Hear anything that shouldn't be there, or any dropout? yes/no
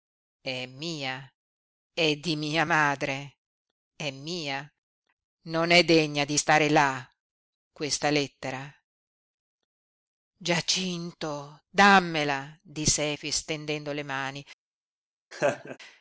yes